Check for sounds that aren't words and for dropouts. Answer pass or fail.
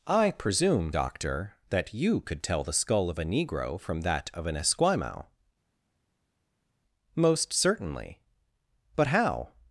pass